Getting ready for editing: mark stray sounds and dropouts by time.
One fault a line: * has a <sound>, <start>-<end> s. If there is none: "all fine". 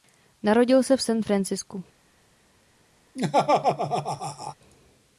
* has a laugh, 3.1-4.5 s